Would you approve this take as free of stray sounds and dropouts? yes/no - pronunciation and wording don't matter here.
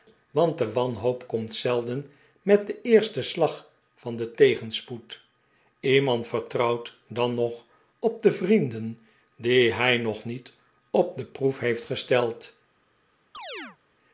no